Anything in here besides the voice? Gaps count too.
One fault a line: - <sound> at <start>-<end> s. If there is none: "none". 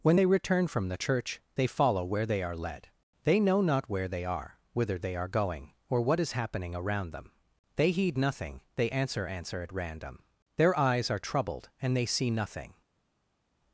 none